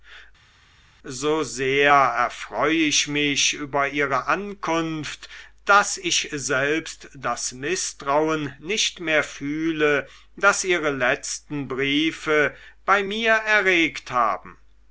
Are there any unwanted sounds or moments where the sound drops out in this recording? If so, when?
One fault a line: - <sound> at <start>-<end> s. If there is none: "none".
none